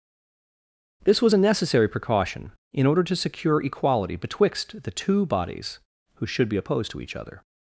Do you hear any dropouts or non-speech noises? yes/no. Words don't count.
no